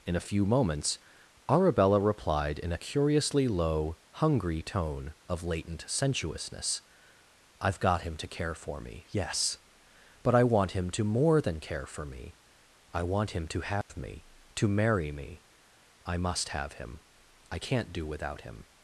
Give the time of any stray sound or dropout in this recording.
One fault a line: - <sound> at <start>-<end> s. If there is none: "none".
- dropout at 13.8-13.9 s